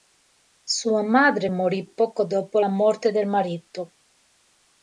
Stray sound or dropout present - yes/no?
no